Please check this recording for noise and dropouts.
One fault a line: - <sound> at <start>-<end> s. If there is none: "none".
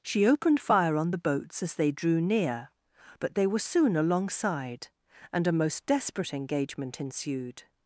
none